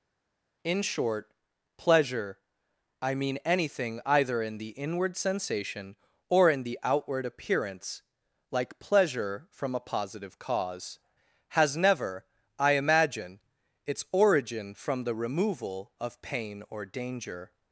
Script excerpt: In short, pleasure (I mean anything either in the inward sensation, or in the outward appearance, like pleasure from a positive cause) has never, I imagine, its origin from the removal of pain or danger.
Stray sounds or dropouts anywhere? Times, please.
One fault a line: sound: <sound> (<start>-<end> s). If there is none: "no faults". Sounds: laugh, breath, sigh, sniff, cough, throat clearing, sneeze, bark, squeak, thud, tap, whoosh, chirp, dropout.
no faults